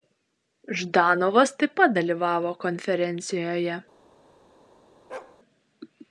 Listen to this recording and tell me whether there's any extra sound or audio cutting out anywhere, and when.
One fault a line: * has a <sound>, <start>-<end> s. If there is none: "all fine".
* has a bark, 5.1-5.4 s